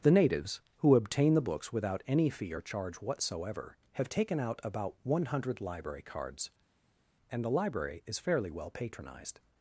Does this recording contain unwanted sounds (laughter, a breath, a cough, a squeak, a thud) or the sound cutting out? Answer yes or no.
no